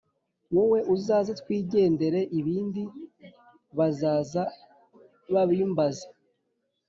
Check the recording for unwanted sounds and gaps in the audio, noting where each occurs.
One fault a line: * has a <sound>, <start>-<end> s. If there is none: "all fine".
all fine